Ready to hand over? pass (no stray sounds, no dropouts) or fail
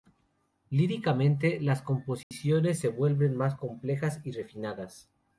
fail